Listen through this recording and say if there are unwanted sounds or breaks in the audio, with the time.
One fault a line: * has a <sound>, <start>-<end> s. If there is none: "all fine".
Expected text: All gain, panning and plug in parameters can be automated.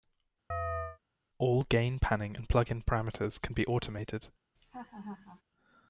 * has a chirp, 0.5-1.0 s
* has a laugh, 4.6-5.4 s